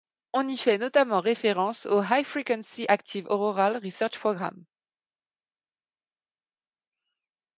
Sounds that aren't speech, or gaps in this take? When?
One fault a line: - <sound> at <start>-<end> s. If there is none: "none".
none